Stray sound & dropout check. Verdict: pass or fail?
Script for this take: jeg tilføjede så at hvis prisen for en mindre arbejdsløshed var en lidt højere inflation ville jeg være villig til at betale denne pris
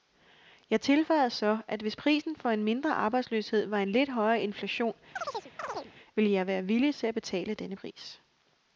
fail